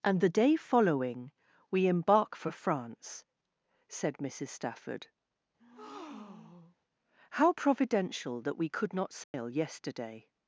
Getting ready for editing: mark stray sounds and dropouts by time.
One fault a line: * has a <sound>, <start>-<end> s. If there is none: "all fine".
* has a breath, 5.6-6.8 s
* has a dropout, 9.2-9.3 s